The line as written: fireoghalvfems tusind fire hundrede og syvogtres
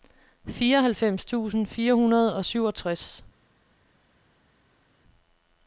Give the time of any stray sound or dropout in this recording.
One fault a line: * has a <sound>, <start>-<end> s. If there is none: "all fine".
all fine